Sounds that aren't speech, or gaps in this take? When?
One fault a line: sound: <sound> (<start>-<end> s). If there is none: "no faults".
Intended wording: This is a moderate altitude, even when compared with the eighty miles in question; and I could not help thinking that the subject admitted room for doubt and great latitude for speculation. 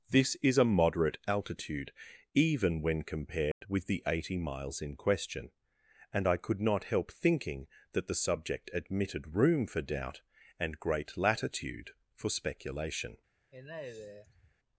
sound: dropout (3.5-3.6 s)
sound: sigh (13.5-14.5 s)